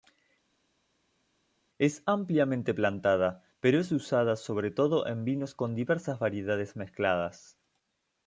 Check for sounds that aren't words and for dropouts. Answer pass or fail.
pass